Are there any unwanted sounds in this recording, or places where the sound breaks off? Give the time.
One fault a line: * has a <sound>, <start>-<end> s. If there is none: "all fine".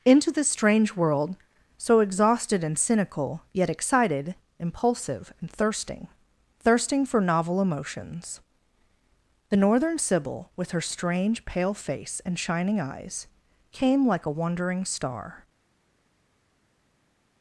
all fine